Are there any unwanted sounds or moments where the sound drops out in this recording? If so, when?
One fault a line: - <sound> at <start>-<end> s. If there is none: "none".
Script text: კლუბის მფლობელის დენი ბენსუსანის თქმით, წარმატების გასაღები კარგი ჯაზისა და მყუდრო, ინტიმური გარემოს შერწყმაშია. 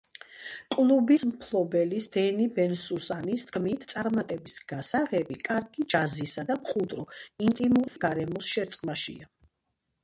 - dropout at 7.9-8.0 s